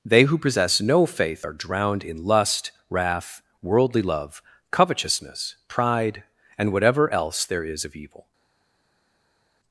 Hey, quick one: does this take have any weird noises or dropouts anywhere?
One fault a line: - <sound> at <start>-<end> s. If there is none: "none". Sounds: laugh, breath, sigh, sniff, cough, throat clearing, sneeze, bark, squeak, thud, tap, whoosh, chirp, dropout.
none